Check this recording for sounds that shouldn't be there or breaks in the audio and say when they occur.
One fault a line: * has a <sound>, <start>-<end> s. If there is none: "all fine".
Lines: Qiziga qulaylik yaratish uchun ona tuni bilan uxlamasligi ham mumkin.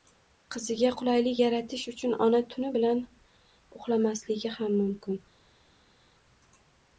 all fine